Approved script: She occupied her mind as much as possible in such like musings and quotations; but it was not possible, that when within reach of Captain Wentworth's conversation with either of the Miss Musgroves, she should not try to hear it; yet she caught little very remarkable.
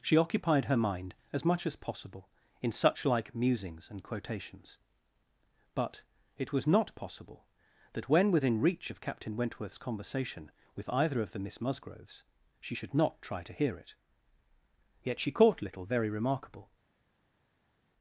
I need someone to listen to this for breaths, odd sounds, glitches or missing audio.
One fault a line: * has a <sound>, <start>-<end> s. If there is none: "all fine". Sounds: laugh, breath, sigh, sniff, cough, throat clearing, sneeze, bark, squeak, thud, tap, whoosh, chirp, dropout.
all fine